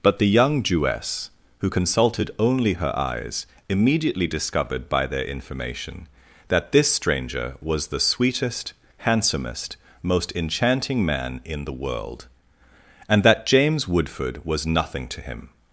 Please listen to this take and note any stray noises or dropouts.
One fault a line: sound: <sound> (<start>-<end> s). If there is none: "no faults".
no faults